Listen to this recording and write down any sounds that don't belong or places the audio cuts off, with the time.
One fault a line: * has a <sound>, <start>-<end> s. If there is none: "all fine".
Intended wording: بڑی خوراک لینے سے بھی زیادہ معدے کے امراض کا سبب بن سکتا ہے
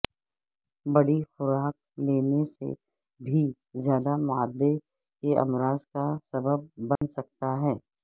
* has a dropout, 7.0-7.0 s